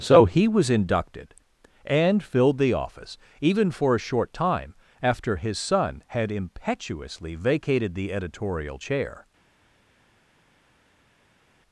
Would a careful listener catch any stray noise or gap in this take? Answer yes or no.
no